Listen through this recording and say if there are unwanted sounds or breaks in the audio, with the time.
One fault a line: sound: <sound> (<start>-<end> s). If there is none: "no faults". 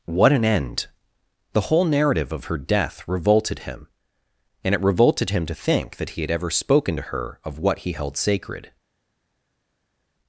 no faults